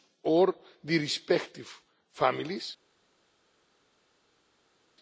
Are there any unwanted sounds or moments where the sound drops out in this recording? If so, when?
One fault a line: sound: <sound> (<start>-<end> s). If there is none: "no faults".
no faults